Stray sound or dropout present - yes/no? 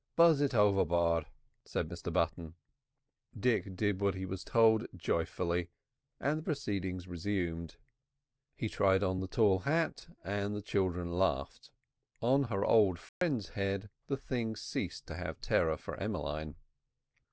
yes